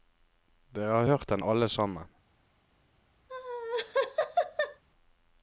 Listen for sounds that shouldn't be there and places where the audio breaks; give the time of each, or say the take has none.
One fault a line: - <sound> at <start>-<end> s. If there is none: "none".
- laugh at 3.3-4.8 s